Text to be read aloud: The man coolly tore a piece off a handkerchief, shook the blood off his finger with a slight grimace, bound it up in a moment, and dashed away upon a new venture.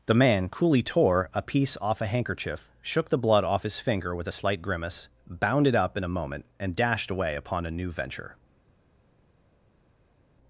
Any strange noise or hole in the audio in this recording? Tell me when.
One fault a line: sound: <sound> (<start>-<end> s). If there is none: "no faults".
no faults